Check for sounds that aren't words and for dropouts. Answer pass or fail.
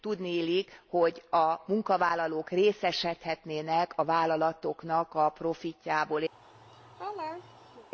fail